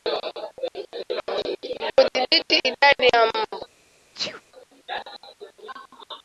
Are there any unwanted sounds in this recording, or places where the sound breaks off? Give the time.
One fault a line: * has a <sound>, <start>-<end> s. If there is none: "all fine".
* has a sneeze, 4.1-4.4 s